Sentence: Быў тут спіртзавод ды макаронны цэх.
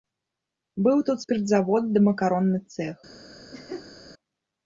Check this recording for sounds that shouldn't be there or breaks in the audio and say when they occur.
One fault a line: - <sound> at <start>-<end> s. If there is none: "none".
- laugh at 3.5-4.0 s